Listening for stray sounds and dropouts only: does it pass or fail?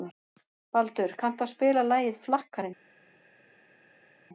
pass